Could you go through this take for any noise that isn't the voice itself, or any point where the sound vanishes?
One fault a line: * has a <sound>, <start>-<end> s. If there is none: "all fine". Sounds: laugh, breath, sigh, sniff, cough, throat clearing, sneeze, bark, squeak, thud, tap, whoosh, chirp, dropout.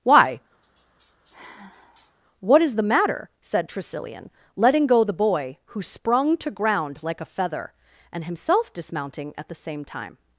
* has a sigh, 0.6-2.2 s